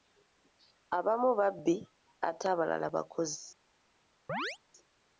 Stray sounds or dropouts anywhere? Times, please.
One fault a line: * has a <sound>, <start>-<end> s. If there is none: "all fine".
* has a chirp, 4.3-4.6 s